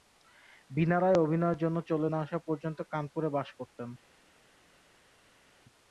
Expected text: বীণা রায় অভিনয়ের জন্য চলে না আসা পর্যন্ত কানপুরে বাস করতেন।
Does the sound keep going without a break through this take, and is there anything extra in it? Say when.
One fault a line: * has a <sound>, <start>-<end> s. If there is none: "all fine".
all fine